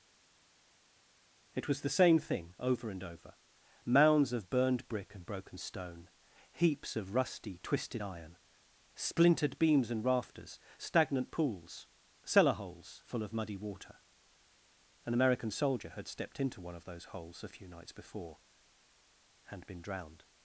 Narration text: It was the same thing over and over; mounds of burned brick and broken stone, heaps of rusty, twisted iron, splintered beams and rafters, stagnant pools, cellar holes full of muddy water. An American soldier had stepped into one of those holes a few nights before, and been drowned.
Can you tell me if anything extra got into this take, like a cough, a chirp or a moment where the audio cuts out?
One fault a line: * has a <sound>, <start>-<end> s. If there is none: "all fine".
all fine